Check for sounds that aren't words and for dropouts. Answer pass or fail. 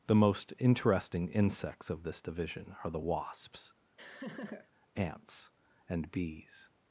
fail